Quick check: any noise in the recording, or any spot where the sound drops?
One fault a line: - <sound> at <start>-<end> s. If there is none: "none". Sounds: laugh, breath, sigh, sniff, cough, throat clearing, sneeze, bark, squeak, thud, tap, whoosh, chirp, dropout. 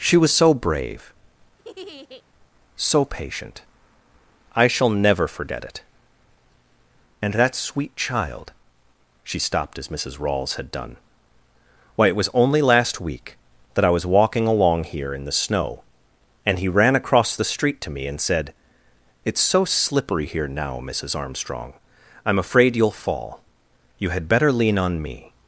- laugh at 1.6-2.2 s